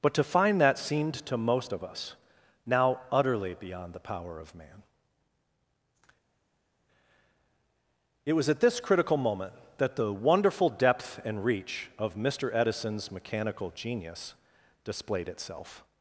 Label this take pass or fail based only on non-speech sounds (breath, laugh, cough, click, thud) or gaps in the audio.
pass